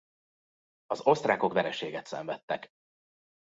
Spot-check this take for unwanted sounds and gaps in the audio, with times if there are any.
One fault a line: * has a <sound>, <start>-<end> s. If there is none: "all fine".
all fine